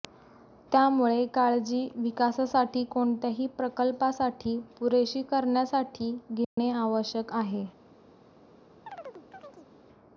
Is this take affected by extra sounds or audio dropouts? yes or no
yes